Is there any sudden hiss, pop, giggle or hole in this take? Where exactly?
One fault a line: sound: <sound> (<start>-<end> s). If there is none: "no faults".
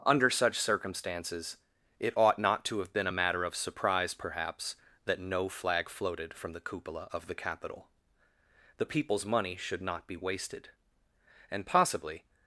no faults